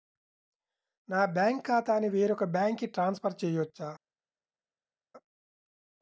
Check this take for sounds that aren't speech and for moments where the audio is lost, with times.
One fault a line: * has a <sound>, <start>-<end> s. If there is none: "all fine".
all fine